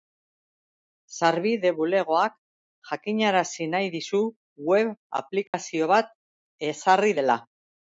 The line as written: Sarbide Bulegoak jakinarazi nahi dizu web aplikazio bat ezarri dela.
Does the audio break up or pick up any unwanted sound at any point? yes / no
yes